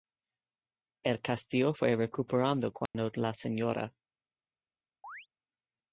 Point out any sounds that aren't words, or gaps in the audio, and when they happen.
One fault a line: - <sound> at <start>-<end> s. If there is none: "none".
- dropout at 2.9-2.9 s
- chirp at 5.0-5.3 s